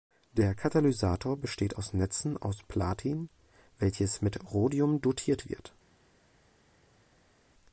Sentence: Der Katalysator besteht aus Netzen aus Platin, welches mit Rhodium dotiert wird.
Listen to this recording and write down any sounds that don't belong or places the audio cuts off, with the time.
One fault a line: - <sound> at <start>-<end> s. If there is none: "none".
none